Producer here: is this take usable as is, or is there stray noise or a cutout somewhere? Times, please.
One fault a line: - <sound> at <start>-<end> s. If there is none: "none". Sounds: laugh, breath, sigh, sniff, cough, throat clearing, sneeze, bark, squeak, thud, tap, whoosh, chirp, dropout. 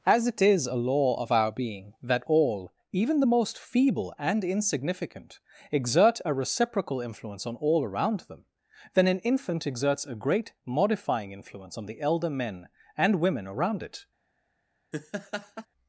- laugh at 14.9-15.7 s